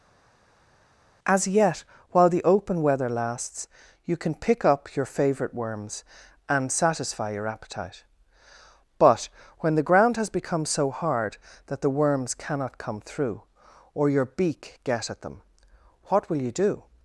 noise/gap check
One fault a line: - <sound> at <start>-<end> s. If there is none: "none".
none